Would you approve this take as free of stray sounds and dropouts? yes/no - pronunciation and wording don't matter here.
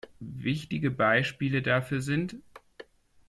yes